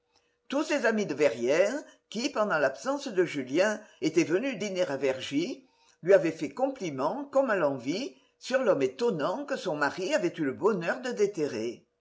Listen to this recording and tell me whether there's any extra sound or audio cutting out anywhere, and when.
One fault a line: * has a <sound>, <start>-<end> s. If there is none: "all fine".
all fine